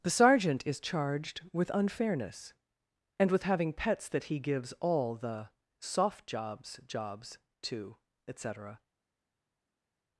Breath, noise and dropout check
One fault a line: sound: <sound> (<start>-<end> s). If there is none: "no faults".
no faults